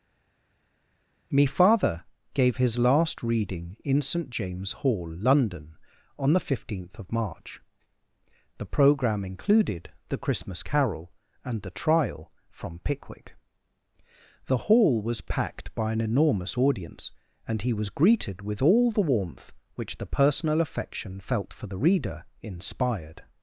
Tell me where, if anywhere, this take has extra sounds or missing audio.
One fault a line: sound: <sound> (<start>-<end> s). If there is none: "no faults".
no faults